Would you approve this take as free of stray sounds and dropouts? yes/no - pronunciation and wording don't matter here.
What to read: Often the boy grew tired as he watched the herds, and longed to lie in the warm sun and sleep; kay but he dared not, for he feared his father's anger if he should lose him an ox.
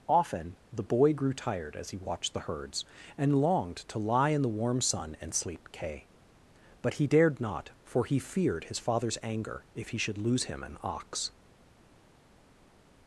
yes